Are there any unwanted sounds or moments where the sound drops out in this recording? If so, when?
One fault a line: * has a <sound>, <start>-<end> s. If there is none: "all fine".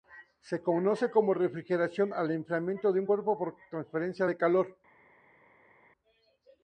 all fine